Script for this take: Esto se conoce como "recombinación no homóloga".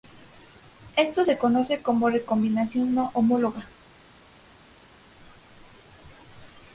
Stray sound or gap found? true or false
false